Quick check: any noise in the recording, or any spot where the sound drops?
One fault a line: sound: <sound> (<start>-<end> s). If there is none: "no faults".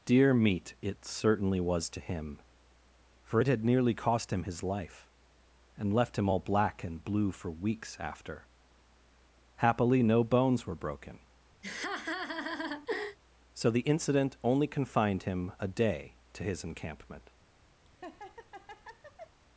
sound: laugh (11.6-13.2 s)
sound: laugh (17.9-19.4 s)